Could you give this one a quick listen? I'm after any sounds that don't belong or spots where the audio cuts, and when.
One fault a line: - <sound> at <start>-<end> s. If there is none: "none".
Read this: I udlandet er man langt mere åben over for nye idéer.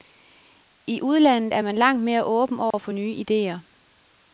- dropout at 2.7-2.7 s